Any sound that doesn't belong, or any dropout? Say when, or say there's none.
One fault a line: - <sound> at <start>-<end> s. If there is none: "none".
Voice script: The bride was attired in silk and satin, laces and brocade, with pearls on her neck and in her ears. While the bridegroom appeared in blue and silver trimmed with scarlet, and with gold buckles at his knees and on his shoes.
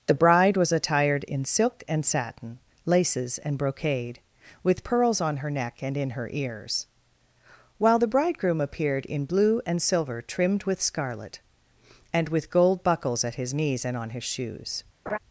- laugh at 15.1-15.2 s